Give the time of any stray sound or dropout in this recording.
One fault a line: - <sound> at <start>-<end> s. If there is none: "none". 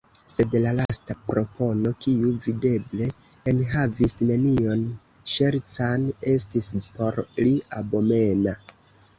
- dropout at 0.9-0.9 s